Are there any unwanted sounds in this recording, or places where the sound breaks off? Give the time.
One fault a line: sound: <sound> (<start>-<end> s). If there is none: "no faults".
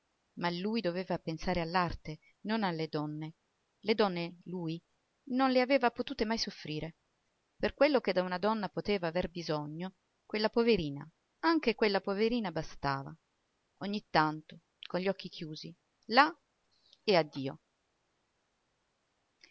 no faults